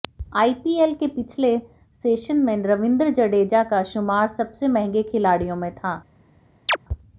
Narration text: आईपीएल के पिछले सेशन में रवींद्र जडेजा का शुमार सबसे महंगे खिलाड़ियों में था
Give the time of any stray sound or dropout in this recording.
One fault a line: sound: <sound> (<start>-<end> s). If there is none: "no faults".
sound: chirp (6.7-6.8 s)